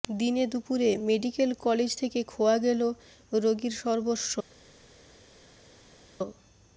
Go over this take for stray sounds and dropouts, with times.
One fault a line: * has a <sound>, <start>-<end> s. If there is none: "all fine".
all fine